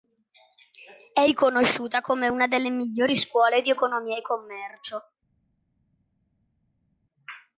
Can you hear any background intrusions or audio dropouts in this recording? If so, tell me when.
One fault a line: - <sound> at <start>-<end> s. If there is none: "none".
none